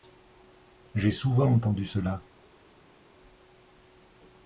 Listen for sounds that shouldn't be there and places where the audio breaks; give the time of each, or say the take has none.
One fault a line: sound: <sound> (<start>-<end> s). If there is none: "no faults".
no faults